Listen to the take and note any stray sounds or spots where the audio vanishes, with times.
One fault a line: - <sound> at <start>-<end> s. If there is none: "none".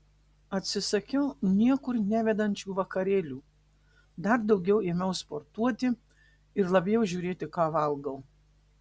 none